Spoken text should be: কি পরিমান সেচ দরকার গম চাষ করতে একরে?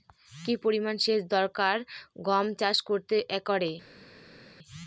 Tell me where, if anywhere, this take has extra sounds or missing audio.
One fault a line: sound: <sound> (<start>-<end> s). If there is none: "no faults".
no faults